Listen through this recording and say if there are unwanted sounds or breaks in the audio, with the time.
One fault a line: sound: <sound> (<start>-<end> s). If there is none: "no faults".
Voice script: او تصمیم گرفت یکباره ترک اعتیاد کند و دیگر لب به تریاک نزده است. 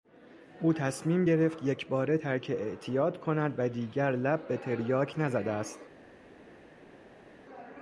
no faults